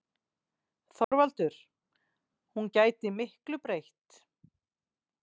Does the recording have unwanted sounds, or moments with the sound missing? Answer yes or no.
yes